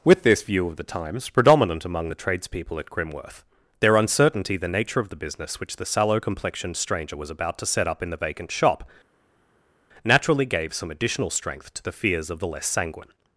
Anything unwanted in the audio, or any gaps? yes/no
no